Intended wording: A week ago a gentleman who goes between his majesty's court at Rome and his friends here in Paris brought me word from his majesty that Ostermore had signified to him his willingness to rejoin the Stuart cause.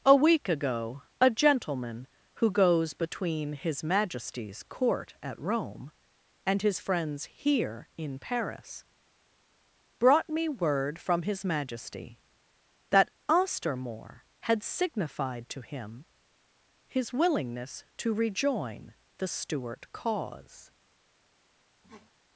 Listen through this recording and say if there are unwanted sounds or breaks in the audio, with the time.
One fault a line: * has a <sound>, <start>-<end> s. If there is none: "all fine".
* has a sniff, 21.8-22.1 s